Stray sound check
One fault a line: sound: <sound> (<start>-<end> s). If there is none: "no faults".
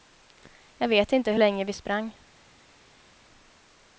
no faults